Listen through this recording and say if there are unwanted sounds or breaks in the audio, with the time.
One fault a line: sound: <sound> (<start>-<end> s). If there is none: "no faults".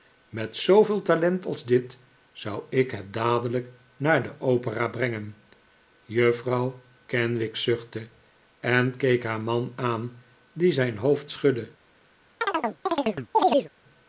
sound: chirp (12.4-13.7 s)